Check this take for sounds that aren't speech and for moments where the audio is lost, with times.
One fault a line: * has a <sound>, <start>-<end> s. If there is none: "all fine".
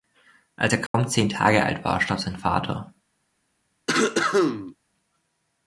* has a dropout, 0.9-0.9 s
* has a cough, 3.9-4.8 s